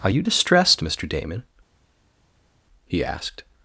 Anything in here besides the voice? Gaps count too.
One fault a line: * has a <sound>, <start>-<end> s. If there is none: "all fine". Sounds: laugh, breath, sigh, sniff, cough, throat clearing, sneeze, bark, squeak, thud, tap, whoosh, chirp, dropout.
all fine